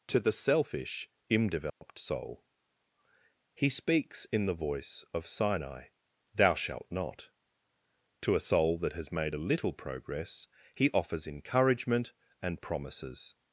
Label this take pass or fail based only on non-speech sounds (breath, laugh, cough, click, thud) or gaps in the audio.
fail